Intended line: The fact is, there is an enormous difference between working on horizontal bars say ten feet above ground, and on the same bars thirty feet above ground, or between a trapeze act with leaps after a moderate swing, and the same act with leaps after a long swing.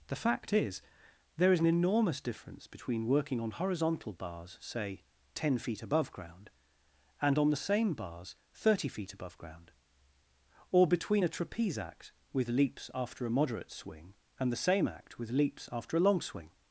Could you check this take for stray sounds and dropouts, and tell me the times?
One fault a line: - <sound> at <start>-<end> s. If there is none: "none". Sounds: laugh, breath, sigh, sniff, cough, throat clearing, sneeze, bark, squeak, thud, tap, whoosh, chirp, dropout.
none